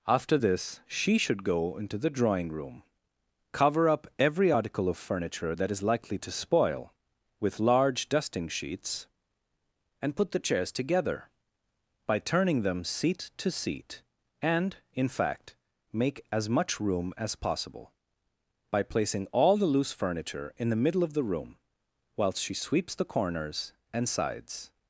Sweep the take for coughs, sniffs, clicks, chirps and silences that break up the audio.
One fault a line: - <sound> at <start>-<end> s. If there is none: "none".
none